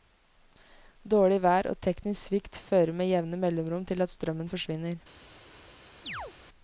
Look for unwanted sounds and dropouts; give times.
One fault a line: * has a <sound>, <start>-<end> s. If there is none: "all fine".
* has a chirp, 6.0-6.3 s